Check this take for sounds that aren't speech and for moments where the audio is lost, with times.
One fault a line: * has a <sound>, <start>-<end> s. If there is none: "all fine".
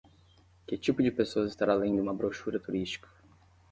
all fine